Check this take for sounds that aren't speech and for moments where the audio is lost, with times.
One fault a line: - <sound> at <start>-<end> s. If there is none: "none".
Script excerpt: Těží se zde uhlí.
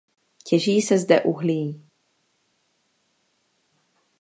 none